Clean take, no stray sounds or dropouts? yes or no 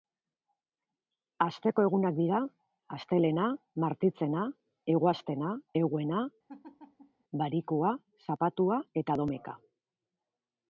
no